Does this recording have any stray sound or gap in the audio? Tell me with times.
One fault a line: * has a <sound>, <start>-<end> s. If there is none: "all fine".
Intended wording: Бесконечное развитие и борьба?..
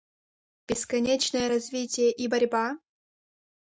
all fine